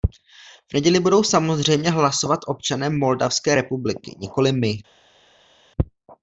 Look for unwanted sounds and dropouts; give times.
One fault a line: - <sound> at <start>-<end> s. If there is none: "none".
none